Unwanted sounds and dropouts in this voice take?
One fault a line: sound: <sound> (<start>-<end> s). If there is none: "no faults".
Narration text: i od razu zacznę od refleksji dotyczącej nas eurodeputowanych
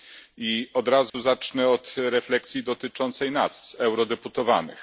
sound: dropout (1.1-1.1 s)